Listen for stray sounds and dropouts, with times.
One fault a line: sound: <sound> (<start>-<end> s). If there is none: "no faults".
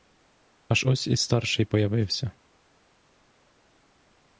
no faults